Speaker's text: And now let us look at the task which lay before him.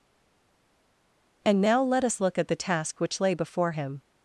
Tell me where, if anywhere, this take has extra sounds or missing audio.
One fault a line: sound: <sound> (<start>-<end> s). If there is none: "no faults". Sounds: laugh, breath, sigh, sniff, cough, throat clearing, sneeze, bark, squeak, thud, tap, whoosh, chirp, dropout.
no faults